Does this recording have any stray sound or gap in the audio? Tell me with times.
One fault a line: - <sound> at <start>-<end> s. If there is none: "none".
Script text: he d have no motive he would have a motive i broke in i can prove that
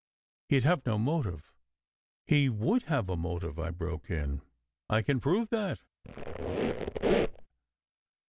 - squeak at 6.0-7.5 s